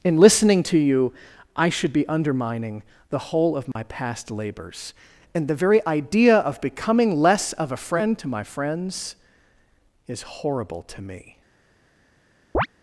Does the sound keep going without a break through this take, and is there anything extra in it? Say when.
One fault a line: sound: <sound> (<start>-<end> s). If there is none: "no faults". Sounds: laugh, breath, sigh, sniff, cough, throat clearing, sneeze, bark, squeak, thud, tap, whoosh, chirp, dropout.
sound: dropout (3.7-3.8 s)
sound: chirp (12.5-12.7 s)